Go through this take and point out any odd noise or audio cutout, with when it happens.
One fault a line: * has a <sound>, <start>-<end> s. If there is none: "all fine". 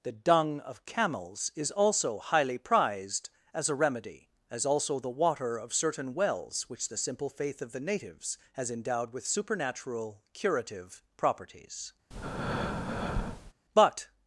* has a breath, 12.1-13.5 s